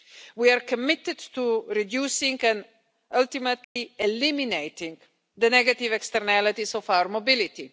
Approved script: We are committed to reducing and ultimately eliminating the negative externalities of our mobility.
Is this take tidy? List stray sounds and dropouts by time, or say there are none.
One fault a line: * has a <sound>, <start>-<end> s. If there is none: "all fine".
* has a dropout, 3.6-3.8 s